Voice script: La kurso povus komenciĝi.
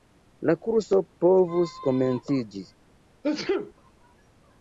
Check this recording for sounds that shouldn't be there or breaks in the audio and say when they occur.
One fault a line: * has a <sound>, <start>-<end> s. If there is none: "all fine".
* has a sneeze, 3.2-3.7 s